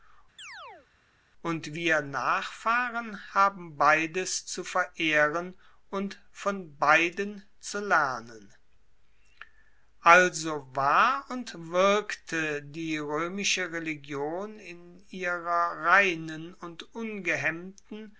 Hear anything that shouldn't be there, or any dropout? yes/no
yes